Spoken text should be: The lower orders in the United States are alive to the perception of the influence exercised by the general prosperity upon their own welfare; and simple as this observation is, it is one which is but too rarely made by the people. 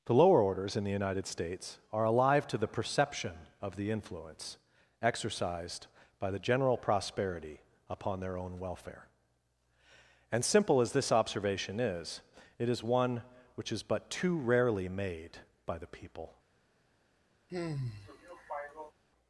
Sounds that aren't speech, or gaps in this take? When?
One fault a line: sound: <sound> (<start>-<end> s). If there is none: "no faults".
sound: sigh (17.5-18.9 s)